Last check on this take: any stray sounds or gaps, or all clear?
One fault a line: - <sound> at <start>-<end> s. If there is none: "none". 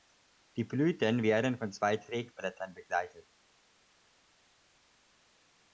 none